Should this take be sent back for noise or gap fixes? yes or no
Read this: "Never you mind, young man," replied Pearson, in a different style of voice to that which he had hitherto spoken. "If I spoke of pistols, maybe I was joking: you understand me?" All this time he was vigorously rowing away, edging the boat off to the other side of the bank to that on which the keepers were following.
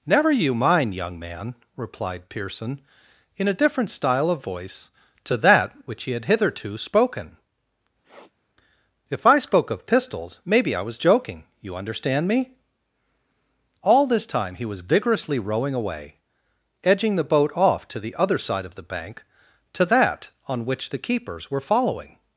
yes